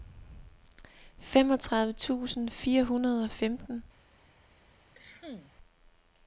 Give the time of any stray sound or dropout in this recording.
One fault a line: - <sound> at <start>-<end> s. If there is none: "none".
- cough at 4.9-5.5 s